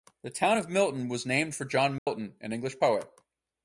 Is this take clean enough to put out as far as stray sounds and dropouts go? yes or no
no